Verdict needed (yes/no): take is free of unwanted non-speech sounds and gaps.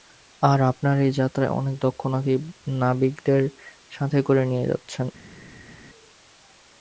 yes